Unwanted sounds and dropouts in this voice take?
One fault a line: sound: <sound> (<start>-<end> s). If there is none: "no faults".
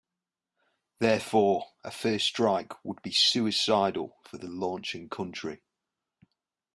no faults